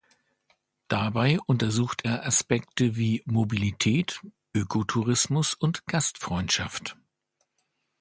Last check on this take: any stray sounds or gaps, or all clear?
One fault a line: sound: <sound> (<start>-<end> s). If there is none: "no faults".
no faults